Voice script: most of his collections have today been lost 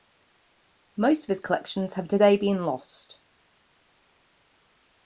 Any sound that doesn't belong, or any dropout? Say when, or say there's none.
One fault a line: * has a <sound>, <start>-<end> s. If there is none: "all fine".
all fine